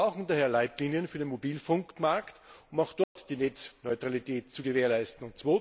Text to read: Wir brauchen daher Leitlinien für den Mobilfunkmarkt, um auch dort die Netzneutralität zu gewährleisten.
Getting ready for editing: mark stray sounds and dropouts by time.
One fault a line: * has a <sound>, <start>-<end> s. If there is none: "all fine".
* has a dropout, 3.0-3.2 s